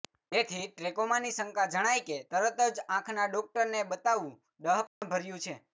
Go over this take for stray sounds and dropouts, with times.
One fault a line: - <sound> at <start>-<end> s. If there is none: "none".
- dropout at 4.9-5.0 s